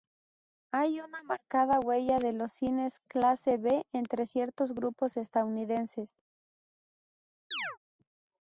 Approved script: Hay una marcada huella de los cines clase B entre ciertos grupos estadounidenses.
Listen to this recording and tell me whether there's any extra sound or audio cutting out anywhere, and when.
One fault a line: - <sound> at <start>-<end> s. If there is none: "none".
- chirp at 7.5-7.8 s